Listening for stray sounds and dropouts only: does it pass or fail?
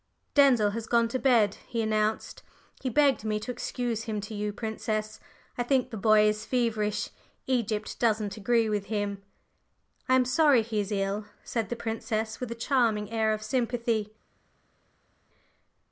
pass